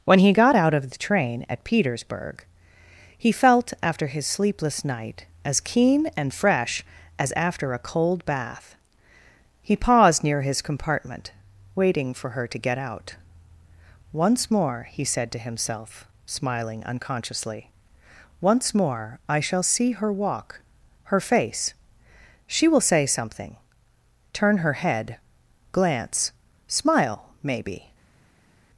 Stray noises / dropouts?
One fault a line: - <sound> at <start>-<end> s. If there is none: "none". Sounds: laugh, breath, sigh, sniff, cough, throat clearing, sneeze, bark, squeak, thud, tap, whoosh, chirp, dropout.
none